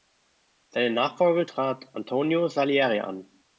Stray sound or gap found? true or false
false